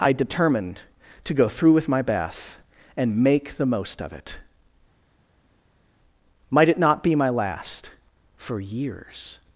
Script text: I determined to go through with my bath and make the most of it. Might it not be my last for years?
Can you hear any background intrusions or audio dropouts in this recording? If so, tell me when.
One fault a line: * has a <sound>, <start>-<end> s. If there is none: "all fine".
all fine